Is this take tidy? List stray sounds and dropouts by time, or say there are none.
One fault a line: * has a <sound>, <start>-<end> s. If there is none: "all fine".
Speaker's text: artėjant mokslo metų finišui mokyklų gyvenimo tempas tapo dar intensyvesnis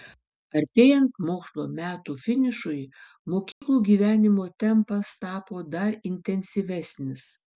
* has a dropout, 3.5-3.6 s